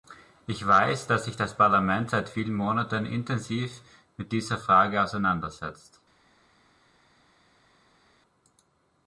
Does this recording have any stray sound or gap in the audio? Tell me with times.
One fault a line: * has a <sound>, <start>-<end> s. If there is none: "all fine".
all fine